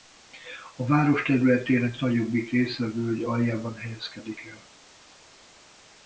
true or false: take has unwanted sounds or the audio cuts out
false